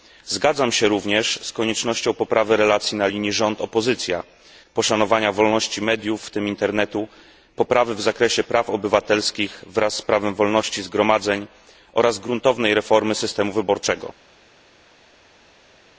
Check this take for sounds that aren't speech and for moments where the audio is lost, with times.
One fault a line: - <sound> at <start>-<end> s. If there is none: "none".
none